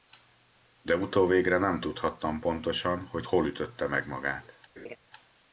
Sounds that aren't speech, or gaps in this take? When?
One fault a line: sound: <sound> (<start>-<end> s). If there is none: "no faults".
sound: laugh (4.8-5.0 s)